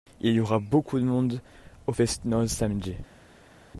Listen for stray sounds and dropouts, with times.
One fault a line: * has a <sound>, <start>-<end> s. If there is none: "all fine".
all fine